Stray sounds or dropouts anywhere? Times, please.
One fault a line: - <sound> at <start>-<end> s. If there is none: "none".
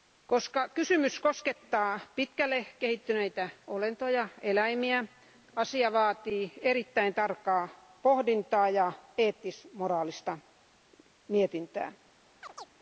- chirp at 12.4-12.7 s